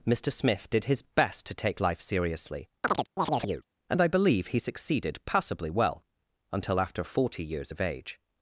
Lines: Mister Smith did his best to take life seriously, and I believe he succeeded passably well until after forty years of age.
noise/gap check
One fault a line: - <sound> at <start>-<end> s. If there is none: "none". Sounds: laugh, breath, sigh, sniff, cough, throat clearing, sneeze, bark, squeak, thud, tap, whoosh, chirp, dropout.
- chirp at 2.8-3.6 s